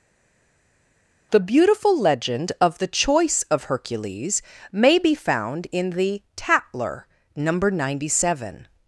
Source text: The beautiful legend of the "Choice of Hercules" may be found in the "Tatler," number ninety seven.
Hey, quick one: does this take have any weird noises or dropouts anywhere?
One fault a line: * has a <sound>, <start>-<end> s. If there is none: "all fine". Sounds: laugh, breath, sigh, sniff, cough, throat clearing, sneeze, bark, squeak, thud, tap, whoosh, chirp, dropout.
all fine